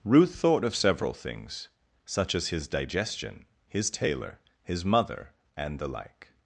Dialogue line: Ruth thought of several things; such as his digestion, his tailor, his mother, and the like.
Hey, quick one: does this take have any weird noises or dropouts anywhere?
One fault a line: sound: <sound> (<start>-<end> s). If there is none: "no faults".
no faults